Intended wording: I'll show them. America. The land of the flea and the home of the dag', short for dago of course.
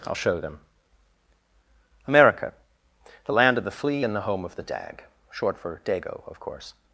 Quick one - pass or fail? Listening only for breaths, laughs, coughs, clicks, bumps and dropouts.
pass